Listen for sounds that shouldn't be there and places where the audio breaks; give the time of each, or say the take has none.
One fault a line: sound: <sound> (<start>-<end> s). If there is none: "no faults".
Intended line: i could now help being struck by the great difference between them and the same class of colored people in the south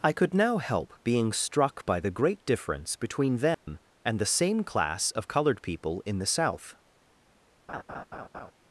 sound: dropout (3.5-3.7 s)
sound: laugh (7.7-8.5 s)